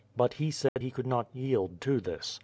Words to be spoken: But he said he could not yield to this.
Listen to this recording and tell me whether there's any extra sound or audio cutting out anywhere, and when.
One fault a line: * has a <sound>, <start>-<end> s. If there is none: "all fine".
* has a dropout, 0.7-0.8 s